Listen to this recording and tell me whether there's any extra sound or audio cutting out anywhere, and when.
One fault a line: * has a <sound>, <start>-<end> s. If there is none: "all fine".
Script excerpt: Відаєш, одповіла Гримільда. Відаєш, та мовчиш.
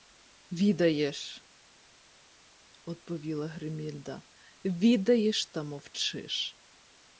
all fine